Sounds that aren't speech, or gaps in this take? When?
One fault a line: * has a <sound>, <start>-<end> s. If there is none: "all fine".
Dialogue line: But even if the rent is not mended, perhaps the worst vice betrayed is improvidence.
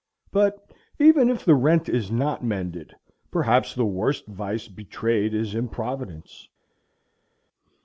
all fine